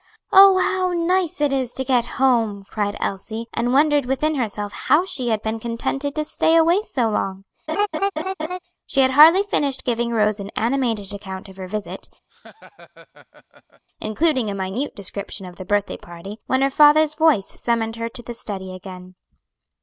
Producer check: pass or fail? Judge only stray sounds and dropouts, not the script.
fail